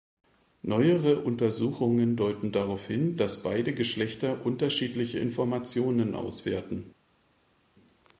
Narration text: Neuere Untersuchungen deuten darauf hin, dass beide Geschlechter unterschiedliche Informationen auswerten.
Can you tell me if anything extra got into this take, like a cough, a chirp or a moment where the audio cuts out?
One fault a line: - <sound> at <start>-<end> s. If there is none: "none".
none